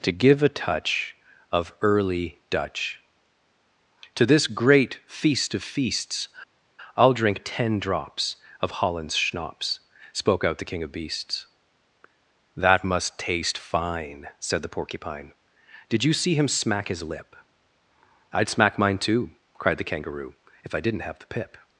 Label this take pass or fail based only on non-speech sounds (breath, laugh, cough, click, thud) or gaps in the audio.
pass